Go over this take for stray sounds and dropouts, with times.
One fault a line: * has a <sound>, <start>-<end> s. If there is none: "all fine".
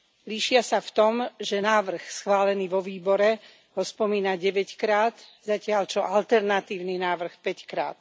all fine